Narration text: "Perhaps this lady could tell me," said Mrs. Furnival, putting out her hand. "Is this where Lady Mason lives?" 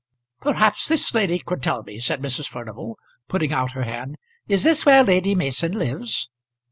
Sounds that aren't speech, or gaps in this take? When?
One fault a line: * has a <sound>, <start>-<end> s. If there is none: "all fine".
all fine